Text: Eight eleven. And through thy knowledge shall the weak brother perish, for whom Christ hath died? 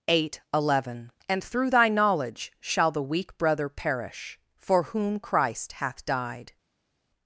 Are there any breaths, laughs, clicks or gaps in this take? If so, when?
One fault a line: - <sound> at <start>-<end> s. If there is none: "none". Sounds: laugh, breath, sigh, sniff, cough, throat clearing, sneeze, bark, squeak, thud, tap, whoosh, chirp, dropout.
none